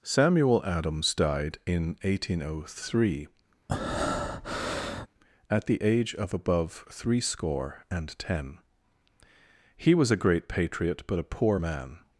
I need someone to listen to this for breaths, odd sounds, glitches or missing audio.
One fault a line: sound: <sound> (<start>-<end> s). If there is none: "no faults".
sound: breath (3.7-5.1 s)